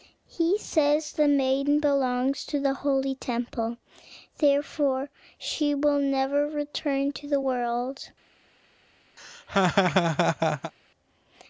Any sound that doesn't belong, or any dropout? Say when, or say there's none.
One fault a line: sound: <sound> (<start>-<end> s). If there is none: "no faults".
sound: laugh (9.2-10.7 s)